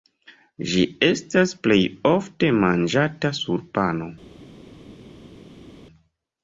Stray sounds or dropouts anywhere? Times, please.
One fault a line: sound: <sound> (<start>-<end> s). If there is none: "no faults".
no faults